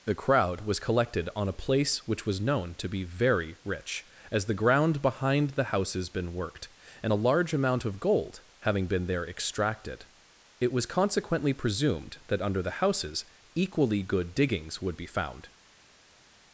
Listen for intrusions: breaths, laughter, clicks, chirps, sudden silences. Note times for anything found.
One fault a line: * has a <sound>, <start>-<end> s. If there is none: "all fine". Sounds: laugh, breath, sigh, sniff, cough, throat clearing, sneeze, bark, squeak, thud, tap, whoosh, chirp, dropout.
all fine